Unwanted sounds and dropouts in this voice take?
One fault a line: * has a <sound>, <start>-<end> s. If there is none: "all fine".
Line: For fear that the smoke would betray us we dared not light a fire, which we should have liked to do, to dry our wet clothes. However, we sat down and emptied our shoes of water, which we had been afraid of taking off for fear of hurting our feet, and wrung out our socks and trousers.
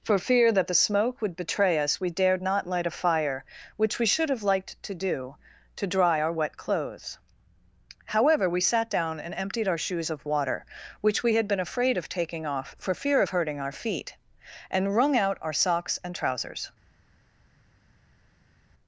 all fine